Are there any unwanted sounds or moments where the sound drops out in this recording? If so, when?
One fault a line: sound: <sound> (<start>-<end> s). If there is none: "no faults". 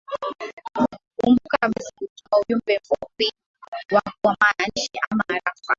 sound: dropout (2.2-2.3 s)